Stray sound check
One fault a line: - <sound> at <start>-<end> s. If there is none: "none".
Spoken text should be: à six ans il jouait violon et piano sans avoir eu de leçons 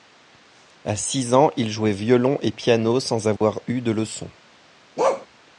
- dropout at 3.4-3.4 s
- bark at 5.0-5.3 s